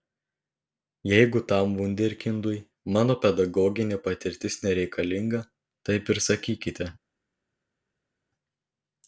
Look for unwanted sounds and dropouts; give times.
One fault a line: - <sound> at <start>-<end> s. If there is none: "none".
none